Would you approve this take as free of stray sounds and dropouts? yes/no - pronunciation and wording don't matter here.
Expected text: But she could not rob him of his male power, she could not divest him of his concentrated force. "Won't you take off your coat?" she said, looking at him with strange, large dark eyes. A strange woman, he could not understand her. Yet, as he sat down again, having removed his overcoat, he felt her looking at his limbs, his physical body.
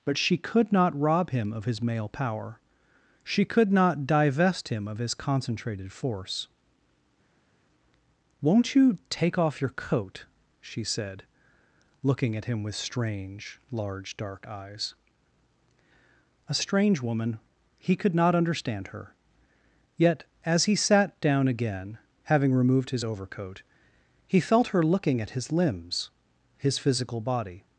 yes